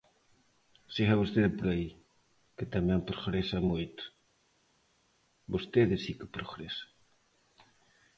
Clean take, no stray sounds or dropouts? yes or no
yes